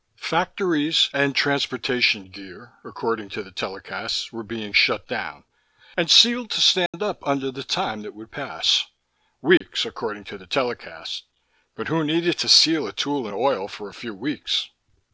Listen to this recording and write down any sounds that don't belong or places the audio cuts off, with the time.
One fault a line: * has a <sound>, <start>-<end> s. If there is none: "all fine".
* has a dropout, 6.9-6.9 s
* has a dropout, 9.6-9.6 s